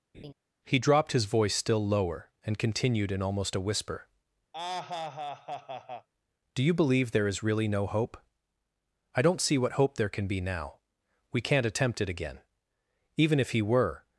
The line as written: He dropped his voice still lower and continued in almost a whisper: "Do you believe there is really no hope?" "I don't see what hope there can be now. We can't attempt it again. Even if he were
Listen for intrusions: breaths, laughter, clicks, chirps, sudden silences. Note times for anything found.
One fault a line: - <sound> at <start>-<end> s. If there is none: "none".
- laugh at 0.1-0.3 s
- laugh at 4.5-6.1 s